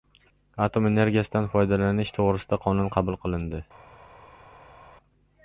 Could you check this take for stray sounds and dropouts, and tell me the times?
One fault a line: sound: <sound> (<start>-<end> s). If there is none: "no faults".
no faults